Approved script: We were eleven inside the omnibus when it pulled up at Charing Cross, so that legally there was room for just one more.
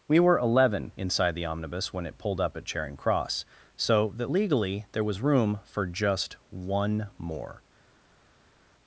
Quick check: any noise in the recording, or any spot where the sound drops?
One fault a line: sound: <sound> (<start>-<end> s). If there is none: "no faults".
no faults